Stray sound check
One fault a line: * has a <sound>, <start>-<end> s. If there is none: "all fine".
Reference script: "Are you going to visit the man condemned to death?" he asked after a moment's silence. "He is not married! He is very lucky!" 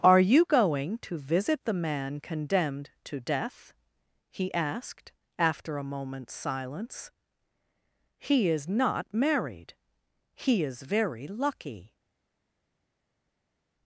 all fine